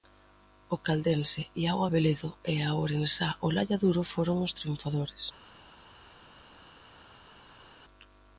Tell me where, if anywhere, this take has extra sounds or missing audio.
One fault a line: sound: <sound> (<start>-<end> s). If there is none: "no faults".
no faults